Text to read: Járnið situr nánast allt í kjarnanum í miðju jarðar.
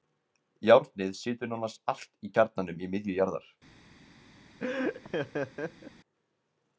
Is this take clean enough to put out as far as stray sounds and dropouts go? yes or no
no